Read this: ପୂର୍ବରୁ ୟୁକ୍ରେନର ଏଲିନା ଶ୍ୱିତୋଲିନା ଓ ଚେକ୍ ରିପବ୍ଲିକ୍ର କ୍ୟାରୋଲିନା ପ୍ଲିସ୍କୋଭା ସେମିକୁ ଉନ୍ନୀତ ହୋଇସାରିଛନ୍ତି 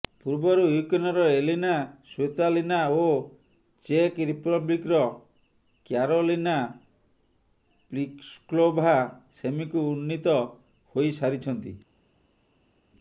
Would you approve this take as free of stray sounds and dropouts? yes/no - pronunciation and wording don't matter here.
yes